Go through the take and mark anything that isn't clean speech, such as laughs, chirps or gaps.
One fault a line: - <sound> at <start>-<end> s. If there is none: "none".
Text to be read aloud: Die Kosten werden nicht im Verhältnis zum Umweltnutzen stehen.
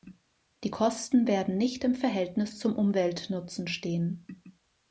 none